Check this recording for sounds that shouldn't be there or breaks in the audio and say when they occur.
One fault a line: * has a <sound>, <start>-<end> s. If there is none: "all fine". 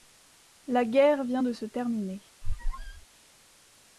* has a squeak, 2.4-3.1 s